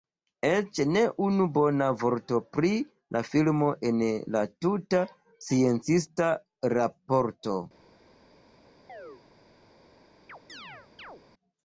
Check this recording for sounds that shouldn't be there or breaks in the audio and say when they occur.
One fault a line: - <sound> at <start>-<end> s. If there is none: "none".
- chirp at 8.9-9.2 s
- chirp at 10.3-11.2 s